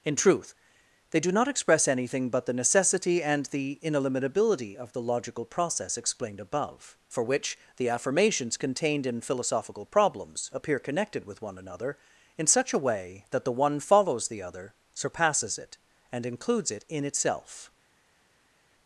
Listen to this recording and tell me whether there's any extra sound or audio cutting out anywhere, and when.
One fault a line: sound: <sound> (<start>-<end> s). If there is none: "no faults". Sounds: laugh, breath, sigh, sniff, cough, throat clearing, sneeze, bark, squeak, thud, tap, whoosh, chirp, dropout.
no faults